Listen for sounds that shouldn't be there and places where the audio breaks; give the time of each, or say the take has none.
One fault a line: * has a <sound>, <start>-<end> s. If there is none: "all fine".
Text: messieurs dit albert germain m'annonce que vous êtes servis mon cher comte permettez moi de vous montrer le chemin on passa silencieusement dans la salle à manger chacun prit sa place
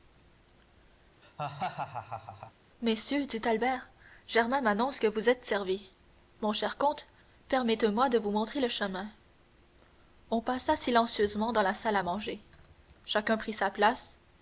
* has a laugh, 1.2-2.5 s